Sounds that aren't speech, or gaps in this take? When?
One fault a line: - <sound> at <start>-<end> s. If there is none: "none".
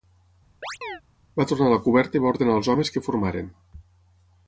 - chirp at 0.6-1.0 s